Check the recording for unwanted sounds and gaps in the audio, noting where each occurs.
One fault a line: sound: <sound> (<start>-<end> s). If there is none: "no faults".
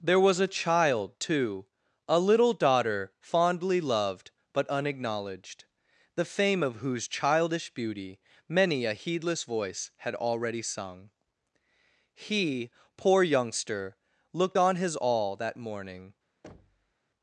sound: thud (16.4-16.9 s)